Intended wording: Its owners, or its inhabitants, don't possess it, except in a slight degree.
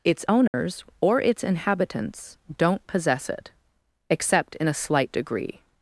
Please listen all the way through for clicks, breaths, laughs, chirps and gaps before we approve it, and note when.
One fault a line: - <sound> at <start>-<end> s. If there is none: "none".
- dropout at 0.5-0.5 s